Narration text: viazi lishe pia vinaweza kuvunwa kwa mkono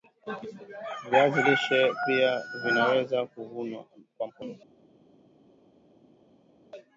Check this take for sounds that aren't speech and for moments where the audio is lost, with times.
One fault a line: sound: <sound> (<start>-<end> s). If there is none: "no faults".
no faults